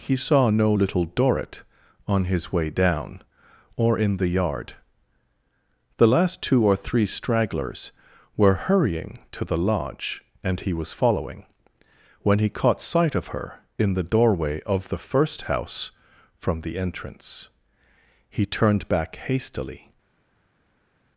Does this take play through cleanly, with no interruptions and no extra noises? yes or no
yes